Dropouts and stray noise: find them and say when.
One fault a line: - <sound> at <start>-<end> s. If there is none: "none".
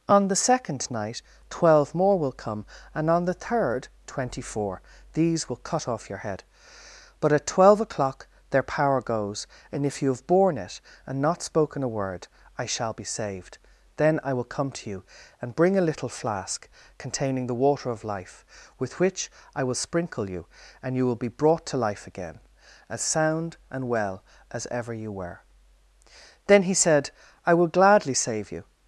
none